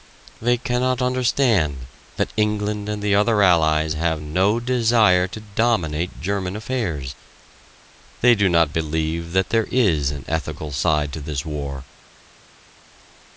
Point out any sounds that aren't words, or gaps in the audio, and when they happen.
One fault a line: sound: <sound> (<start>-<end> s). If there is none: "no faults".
no faults